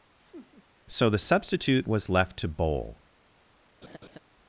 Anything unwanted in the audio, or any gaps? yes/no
yes